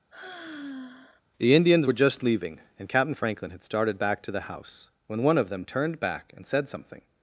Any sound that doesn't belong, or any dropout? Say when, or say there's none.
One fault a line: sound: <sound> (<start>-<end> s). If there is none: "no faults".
sound: sigh (0.1-1.2 s)